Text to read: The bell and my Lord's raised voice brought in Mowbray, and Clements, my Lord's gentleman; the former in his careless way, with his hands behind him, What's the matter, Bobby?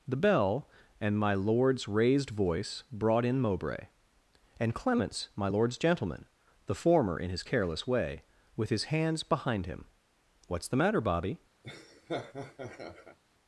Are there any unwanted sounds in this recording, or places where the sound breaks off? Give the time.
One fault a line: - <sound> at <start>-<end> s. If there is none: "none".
- laugh at 11.6-13.2 s